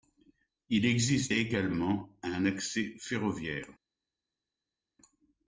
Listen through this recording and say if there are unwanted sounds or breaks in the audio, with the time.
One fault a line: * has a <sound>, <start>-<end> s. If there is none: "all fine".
all fine